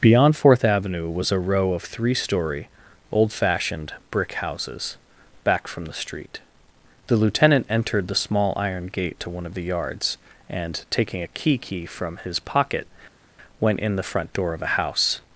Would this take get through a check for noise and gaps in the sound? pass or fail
pass